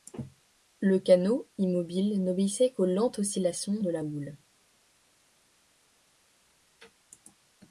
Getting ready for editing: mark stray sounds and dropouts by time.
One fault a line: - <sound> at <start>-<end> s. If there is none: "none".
none